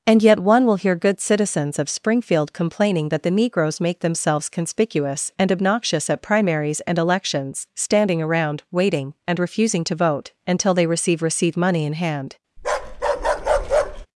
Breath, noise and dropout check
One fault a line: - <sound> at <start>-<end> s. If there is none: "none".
- bark at 12.6-14.1 s